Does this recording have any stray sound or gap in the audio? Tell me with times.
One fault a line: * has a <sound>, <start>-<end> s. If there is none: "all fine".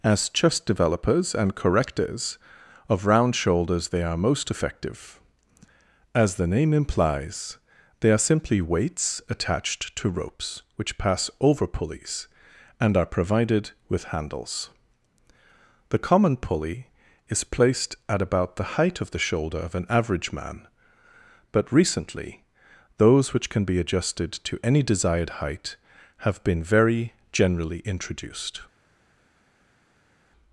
all fine